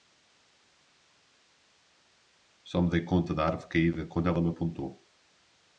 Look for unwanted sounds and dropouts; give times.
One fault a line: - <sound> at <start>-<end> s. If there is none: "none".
none